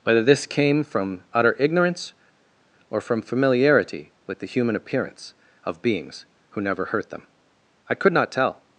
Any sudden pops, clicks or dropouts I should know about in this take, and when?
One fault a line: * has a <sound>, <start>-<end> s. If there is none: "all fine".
all fine